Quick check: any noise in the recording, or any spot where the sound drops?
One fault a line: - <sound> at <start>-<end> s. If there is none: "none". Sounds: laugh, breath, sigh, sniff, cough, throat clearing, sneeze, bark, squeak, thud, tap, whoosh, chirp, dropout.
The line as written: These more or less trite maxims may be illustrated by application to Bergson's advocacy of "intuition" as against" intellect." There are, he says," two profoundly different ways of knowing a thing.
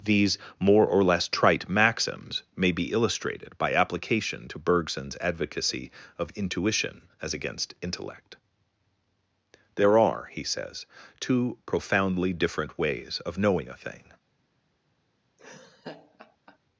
- laugh at 15.4-16.6 s